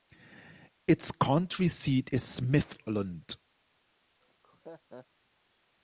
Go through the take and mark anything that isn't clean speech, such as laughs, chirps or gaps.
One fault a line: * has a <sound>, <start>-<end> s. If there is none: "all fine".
* has a laugh, 4.2-5.1 s